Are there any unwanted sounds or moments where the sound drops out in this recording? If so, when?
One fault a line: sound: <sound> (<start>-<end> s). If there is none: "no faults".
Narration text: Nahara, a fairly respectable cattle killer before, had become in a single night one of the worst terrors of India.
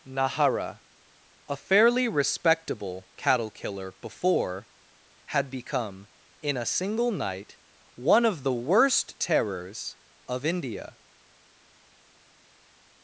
no faults